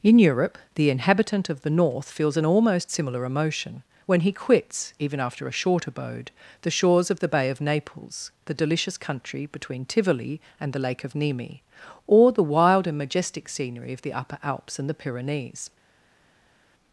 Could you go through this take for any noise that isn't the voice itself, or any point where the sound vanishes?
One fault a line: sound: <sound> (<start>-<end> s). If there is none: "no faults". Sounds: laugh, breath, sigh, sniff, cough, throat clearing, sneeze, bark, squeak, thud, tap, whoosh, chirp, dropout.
no faults